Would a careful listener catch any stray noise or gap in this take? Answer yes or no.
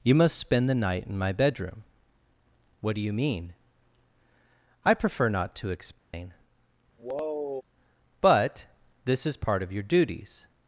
yes